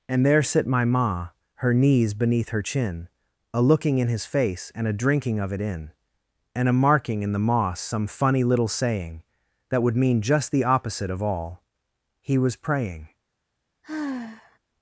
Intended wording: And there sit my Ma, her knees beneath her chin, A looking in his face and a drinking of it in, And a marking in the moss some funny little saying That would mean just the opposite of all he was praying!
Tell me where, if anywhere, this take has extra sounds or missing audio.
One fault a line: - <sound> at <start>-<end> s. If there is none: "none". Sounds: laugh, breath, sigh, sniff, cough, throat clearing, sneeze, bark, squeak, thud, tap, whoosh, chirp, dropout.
- sigh at 13.8-14.6 s